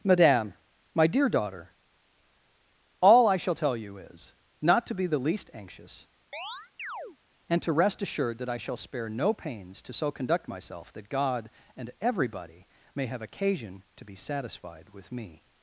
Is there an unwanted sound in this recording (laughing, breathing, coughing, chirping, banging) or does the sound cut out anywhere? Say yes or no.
yes